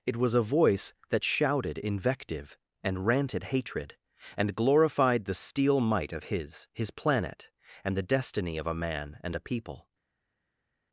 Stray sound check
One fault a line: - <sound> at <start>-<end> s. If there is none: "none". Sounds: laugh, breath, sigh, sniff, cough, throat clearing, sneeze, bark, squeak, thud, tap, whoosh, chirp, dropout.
none